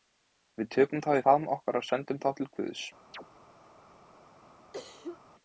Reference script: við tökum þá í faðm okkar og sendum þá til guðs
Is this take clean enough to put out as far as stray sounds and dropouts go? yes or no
no